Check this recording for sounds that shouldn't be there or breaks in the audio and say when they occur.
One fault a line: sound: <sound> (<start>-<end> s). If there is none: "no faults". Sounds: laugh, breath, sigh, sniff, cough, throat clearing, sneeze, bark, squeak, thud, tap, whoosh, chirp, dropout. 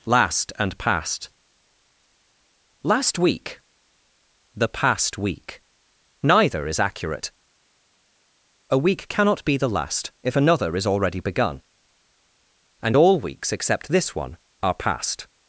no faults